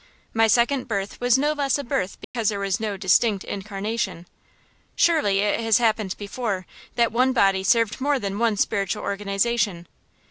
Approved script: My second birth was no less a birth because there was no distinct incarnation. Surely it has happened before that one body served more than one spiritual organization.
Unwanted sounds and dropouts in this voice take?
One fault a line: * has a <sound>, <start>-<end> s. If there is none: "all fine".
* has a dropout, 2.2-2.3 s